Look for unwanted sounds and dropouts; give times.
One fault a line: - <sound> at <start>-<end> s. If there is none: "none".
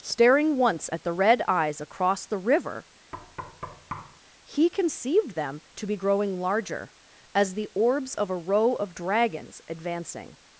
- thud at 3.1-4.2 s